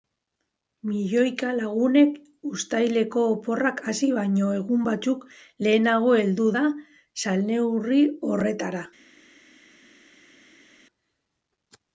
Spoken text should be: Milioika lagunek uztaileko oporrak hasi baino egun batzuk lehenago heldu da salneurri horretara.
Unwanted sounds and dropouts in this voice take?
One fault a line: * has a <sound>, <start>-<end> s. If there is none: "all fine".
all fine